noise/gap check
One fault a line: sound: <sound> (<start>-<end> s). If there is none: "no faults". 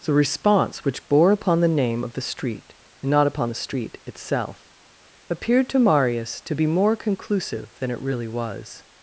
no faults